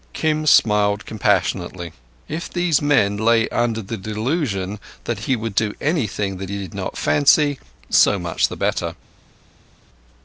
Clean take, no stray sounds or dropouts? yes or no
yes